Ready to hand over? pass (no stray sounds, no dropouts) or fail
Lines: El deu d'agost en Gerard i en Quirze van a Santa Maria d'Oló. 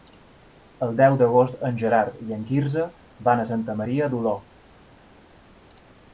pass